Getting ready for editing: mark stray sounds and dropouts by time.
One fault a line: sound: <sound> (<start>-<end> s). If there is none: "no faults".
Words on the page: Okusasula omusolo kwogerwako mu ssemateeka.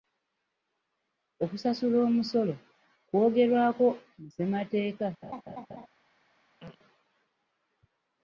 sound: laugh (5.2-5.9 s)
sound: throat clearing (6.6-6.8 s)